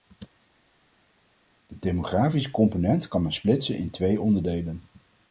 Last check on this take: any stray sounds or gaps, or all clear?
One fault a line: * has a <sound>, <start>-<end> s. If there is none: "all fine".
all fine